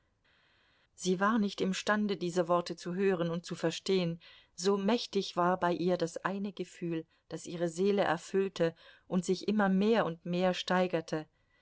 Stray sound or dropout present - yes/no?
no